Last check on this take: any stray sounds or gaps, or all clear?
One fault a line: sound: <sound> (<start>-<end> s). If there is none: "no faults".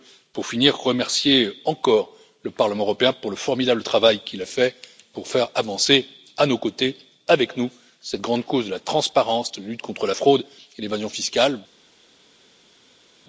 no faults